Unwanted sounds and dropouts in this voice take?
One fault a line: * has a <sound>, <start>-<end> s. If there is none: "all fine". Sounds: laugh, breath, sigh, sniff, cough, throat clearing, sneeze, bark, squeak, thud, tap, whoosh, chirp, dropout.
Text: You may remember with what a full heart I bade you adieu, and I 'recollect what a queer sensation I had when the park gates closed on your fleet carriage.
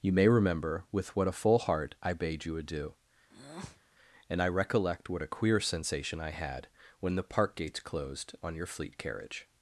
* has a breath, 3.3-3.8 s